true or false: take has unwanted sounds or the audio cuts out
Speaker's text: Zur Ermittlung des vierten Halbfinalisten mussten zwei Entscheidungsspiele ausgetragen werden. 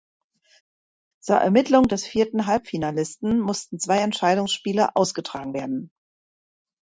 false